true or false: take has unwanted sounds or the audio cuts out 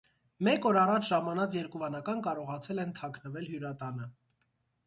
false